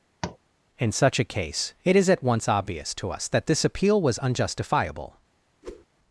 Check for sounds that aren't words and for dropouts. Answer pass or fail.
fail